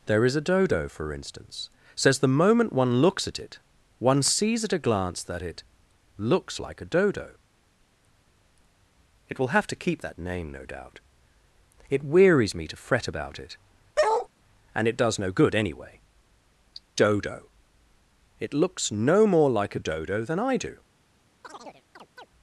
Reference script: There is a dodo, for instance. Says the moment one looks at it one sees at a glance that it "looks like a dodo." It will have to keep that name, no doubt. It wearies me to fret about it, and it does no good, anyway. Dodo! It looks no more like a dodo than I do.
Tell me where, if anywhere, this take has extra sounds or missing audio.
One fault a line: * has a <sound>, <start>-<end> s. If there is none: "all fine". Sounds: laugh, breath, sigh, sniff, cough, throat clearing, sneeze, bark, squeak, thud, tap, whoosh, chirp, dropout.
* has a bark, 14.0-14.3 s
* has a chirp, 21.4-22.3 s